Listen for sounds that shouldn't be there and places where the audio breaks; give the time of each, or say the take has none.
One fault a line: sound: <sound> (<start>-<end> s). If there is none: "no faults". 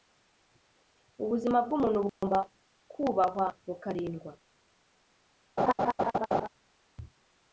sound: dropout (2.1-2.2 s)
sound: laugh (5.6-6.5 s)